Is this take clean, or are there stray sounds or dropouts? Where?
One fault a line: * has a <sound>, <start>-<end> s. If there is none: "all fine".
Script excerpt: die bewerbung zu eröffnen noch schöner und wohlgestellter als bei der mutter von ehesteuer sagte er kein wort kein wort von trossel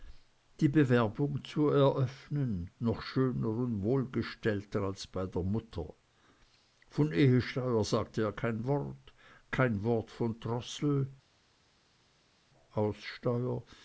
all fine